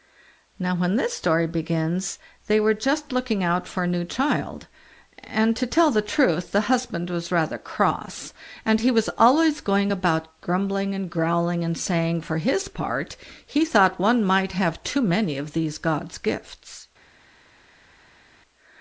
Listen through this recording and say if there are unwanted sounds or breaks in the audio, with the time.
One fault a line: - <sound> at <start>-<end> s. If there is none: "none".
none